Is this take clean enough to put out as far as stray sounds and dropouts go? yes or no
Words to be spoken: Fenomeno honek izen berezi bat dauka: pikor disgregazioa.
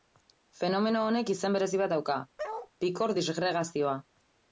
no